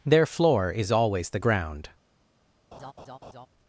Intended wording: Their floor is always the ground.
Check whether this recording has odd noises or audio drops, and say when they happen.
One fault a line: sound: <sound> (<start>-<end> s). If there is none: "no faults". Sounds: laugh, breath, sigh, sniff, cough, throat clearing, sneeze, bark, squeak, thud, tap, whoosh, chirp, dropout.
sound: laugh (2.7-3.5 s)